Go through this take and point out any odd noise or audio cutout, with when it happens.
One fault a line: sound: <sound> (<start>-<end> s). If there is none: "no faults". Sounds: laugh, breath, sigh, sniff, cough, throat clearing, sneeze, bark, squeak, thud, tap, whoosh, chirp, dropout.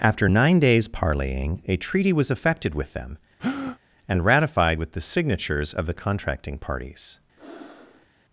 sound: breath (3.4-3.8 s)
sound: breath (7.4-8.1 s)